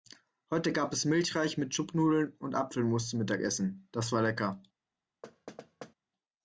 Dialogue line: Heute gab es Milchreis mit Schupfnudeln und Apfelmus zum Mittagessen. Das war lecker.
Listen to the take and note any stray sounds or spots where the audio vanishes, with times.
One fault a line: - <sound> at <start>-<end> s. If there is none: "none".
- thud at 5.2-5.9 s